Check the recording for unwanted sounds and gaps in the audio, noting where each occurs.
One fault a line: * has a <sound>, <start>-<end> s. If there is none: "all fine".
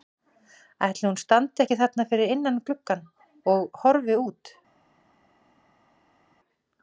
all fine